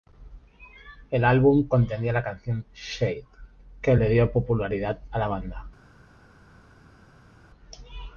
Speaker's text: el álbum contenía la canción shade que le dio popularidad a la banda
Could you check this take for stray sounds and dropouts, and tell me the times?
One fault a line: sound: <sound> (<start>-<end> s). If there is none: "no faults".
no faults